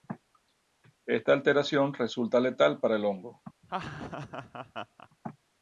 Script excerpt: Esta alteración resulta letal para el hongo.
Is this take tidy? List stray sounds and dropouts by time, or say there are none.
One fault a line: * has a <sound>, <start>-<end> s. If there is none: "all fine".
* has a laugh, 3.6-5.1 s